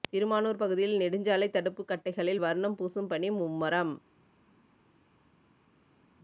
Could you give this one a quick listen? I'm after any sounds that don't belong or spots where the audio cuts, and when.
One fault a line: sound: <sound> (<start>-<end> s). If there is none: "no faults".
no faults